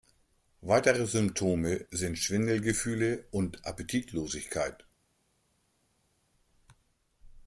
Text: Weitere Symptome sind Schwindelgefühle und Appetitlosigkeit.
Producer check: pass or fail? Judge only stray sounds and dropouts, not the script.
pass